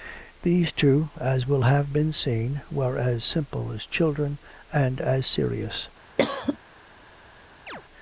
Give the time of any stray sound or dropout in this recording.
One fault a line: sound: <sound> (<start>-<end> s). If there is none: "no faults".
sound: cough (6.2-6.6 s)
sound: chirp (7.7-7.8 s)